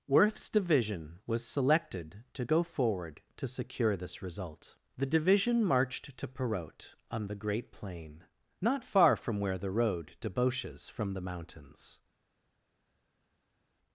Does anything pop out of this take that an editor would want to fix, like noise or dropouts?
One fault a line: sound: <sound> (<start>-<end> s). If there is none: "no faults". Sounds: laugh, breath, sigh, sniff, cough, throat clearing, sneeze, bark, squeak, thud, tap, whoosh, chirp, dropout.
no faults